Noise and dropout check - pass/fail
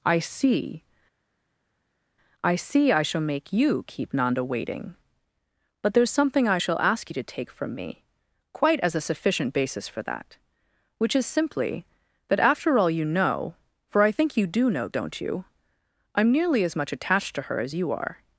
pass